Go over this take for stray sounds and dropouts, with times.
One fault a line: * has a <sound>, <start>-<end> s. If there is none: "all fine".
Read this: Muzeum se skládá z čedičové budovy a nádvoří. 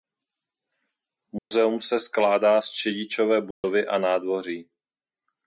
* has a dropout, 1.4-1.5 s
* has a dropout, 3.5-3.6 s